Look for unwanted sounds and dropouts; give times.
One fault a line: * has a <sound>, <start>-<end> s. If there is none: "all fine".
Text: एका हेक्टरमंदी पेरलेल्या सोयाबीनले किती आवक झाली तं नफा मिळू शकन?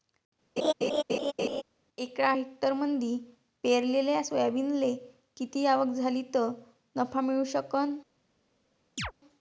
* has a laugh, 0.6-1.6 s
* has a chirp, 9.0-9.1 s